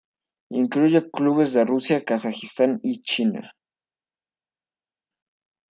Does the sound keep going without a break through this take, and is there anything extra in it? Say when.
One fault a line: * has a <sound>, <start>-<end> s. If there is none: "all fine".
all fine